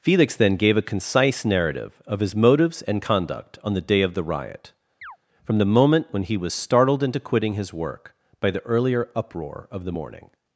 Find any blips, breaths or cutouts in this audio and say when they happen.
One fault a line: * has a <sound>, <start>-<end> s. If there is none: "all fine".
* has a chirp, 5.0-5.2 s